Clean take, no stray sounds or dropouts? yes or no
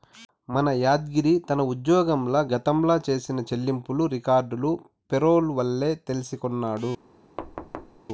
no